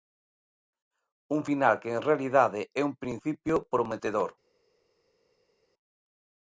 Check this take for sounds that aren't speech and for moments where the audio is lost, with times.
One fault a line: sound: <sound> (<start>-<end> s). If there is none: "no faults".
no faults